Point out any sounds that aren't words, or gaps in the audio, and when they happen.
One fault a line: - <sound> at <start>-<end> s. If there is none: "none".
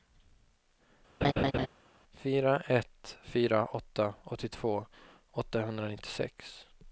- laugh at 1.2-1.7 s